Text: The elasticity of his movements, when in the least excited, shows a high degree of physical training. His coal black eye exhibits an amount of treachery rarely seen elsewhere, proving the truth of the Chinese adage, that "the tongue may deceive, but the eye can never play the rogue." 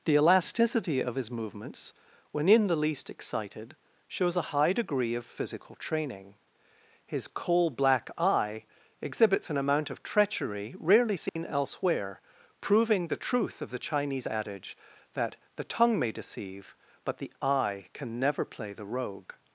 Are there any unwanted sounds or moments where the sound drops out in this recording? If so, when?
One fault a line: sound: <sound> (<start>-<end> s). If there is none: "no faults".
sound: dropout (11.3-11.4 s)